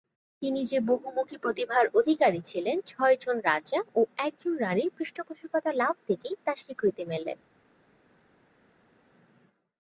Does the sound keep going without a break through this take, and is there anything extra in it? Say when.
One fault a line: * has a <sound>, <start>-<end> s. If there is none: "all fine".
all fine